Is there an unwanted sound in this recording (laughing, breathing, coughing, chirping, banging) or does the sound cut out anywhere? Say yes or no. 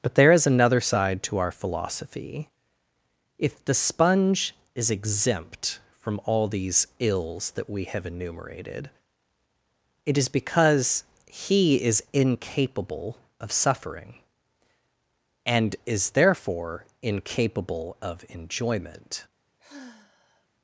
yes